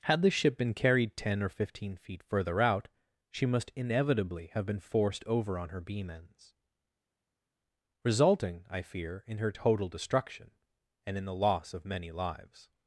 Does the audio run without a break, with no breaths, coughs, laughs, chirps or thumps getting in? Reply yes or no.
yes